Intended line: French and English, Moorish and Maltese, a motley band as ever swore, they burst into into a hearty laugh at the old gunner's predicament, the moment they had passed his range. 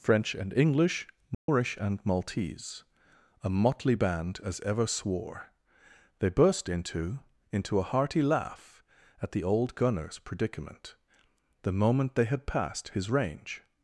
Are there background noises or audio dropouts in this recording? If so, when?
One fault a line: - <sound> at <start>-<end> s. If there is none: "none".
- dropout at 1.3-1.5 s